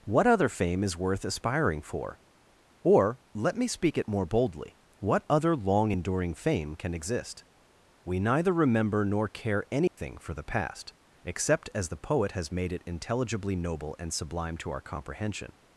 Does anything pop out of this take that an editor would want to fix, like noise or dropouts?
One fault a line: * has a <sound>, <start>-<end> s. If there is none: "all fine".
* has a dropout, 9.9-10.0 s